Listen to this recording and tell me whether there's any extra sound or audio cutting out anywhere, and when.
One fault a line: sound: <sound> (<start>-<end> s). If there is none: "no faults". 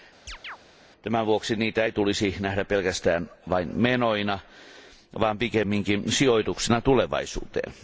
sound: chirp (0.3-0.6 s)